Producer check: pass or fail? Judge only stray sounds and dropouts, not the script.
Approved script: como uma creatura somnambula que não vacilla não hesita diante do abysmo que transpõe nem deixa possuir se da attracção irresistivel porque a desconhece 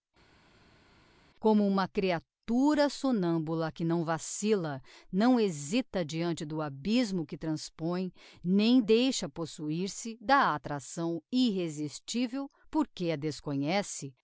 pass